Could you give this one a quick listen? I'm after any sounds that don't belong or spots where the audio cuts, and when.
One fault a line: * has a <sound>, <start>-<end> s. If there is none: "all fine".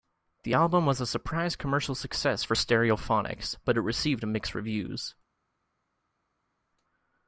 all fine